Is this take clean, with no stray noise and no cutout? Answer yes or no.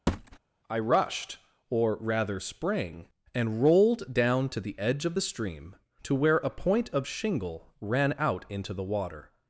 no